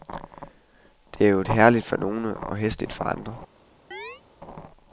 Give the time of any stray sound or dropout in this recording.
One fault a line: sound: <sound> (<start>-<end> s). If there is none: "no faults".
sound: chirp (3.9-4.2 s)